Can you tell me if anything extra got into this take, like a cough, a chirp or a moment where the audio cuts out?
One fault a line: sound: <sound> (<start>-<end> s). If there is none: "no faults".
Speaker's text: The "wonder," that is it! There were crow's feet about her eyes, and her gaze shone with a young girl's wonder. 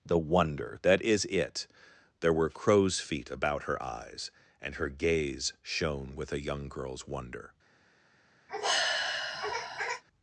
sound: sigh (8.5-10.0 s)